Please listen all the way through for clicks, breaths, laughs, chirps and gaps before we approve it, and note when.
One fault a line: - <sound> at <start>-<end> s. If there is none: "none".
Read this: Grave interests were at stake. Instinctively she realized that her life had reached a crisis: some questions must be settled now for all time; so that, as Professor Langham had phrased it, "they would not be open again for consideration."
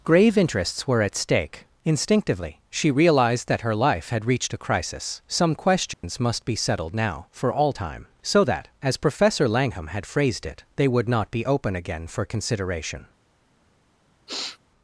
- dropout at 5.9-6.0 s
- sniff at 14.3-14.6 s